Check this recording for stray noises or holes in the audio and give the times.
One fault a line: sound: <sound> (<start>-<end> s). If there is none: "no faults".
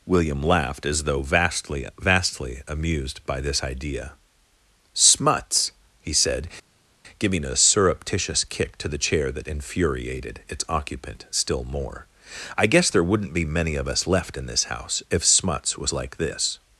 no faults